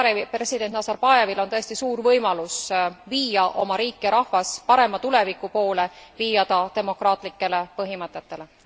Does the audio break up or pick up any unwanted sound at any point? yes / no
no